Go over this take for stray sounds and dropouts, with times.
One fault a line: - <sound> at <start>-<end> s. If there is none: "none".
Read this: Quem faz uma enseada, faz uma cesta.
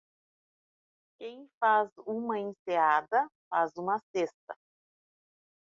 none